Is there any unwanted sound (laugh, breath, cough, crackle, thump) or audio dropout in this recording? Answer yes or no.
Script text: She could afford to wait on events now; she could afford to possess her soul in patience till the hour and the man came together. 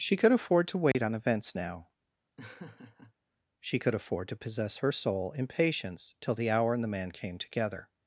yes